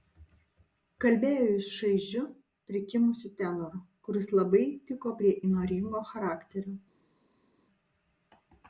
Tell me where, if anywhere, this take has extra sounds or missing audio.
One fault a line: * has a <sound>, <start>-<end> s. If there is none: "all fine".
all fine